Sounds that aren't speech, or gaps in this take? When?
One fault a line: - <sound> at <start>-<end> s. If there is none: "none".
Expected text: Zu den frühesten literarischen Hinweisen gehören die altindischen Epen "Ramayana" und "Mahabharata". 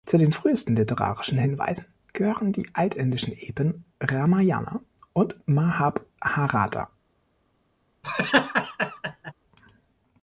- laugh at 8.0-9.3 s